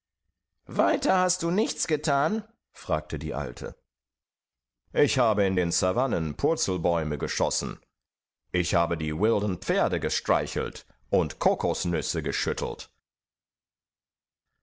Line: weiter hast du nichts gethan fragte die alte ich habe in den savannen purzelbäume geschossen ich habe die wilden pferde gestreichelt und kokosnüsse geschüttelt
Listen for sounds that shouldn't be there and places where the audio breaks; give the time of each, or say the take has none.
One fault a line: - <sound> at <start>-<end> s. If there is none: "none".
none